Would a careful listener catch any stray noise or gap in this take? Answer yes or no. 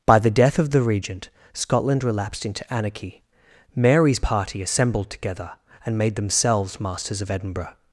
no